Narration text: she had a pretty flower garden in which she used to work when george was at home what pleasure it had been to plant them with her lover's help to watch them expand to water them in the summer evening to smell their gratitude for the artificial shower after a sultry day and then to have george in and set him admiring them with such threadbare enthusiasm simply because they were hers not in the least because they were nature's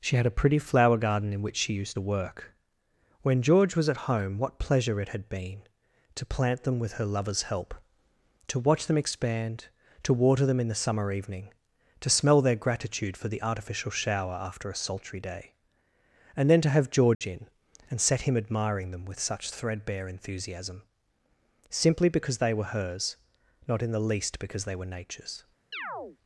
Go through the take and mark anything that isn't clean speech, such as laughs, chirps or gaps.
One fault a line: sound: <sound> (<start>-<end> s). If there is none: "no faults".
sound: dropout (17.1-17.2 s)
sound: chirp (25.7-26.2 s)